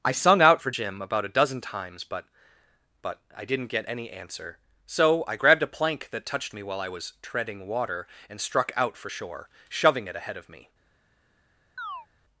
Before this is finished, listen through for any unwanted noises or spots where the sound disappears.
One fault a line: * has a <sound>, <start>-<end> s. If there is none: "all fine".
* has a chirp, 11.8-12.1 s